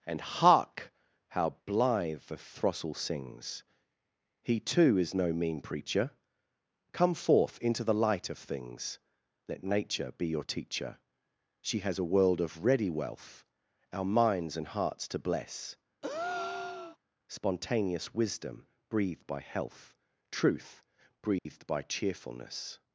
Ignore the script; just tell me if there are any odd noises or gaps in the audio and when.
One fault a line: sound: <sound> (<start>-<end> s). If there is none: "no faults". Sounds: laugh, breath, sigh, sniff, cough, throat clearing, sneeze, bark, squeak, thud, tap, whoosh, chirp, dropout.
sound: breath (16.0-17.0 s)
sound: dropout (21.4-21.5 s)